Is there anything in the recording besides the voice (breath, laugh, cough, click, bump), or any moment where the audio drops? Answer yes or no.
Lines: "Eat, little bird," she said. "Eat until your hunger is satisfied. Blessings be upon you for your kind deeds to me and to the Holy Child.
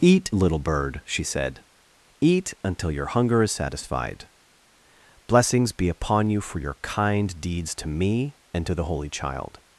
no